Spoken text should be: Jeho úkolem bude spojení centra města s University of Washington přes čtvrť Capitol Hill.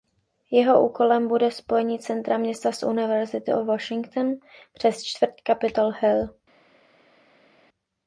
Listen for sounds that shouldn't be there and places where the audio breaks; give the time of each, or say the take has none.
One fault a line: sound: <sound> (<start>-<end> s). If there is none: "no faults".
no faults